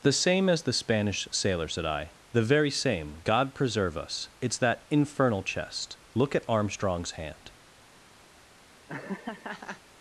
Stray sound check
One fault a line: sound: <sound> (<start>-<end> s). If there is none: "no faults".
sound: laugh (8.9-9.8 s)